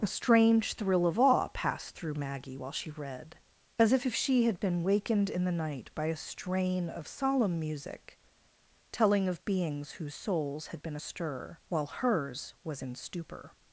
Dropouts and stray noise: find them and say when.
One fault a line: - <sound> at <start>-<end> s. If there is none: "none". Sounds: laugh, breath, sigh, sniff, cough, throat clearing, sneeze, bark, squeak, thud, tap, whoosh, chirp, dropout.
none